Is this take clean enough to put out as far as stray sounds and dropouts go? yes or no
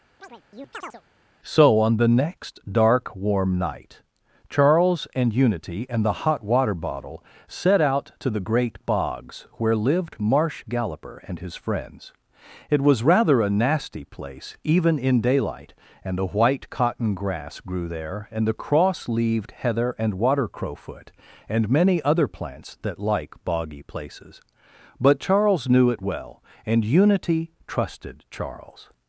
no